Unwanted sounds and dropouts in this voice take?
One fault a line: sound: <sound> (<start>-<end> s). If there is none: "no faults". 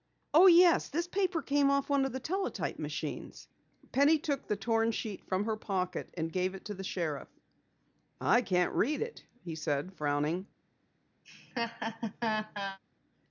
sound: laugh (11.2-12.8 s)